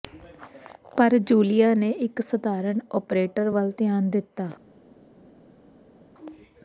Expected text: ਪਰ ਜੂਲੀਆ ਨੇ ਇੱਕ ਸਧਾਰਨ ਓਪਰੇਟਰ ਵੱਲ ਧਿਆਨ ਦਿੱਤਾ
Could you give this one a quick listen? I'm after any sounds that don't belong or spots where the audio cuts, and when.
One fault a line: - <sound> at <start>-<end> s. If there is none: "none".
none